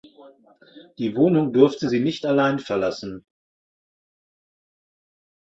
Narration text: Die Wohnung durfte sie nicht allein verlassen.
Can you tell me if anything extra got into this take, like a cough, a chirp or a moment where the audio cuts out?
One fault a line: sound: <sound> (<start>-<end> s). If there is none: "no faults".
no faults